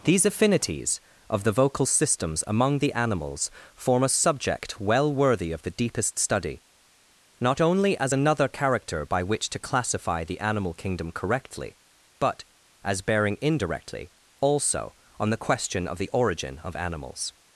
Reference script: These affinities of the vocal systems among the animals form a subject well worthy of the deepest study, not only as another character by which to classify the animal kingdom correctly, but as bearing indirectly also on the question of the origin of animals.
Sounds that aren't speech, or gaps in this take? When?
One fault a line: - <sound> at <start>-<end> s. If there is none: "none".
none